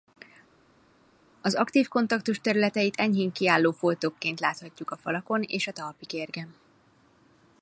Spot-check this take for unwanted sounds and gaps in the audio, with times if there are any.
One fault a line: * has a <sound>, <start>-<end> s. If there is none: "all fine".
all fine